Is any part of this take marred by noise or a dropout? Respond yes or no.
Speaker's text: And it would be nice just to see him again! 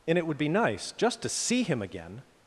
no